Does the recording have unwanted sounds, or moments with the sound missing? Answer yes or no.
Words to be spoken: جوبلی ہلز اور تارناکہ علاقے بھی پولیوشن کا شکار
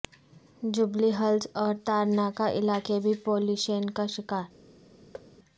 yes